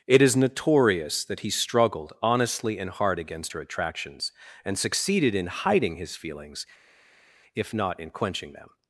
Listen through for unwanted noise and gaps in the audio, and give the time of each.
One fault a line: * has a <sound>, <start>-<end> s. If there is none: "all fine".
all fine